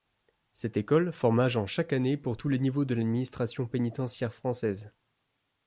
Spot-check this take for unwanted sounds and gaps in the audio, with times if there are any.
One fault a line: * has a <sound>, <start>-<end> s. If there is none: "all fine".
all fine